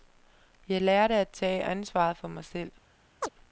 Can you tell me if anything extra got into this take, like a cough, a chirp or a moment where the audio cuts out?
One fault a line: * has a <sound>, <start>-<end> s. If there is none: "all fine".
* has a chirp, 3.2-3.3 s